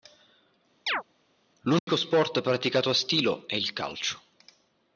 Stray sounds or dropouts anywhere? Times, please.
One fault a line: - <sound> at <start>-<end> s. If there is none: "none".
- chirp at 0.9-1.0 s
- dropout at 1.8-1.9 s